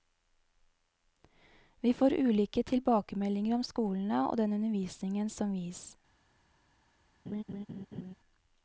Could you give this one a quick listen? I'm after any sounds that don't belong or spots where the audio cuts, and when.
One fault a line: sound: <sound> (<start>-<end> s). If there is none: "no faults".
sound: laugh (7.3-8.1 s)